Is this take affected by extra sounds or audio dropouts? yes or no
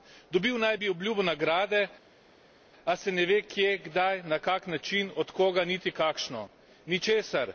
no